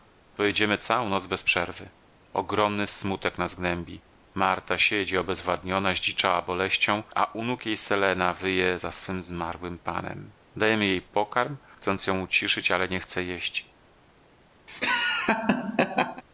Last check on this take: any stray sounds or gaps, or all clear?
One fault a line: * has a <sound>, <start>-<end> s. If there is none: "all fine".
* has a laugh, 14.7-16.2 s